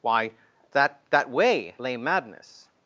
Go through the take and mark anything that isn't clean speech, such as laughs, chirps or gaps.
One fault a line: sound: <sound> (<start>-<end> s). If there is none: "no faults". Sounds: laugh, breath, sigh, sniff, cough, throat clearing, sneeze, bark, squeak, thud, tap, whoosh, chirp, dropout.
no faults